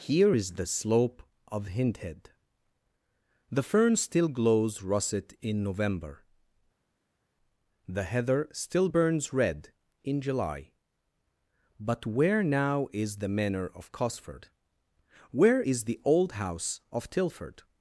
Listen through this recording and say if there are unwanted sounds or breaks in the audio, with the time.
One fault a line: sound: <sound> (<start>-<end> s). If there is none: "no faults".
no faults